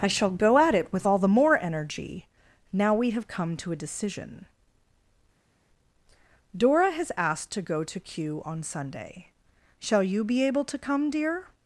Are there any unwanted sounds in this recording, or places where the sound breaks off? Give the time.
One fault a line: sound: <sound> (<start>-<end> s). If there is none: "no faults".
no faults